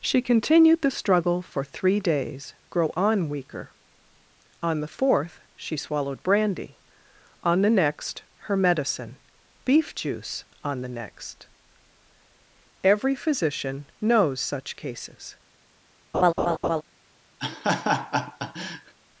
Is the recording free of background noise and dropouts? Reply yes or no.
no